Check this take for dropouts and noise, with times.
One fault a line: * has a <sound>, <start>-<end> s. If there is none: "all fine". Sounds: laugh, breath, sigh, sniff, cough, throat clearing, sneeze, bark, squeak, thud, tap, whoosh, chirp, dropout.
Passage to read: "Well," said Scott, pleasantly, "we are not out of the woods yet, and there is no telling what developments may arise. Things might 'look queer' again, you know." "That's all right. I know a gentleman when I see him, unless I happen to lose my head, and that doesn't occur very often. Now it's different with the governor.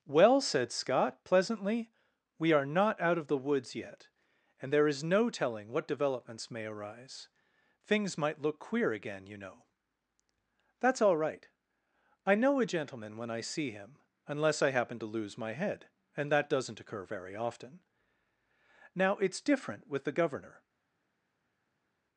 all fine